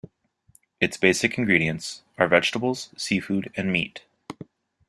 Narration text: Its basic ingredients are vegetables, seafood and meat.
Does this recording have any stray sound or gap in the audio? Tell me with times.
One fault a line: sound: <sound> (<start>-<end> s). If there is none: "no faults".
no faults